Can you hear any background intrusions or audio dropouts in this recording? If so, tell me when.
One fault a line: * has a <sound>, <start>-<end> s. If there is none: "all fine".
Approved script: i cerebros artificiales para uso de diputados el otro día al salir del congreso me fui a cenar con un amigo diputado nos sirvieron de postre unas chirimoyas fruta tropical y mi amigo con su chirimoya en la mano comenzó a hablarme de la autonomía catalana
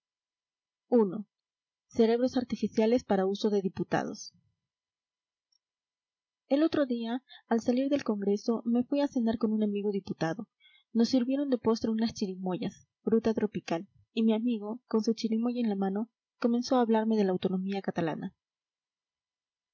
all fine